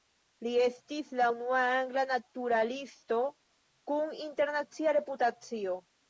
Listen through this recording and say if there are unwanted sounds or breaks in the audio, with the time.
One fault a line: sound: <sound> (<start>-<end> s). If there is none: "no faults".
no faults